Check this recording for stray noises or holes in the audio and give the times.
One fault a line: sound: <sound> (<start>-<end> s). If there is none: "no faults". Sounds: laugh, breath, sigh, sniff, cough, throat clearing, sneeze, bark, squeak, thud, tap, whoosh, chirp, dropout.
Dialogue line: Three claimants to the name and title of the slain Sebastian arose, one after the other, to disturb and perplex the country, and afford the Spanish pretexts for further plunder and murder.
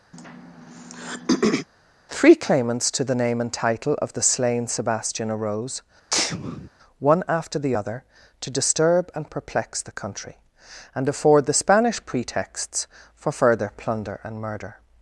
sound: throat clearing (0.1-1.7 s)
sound: sneeze (6.1-6.7 s)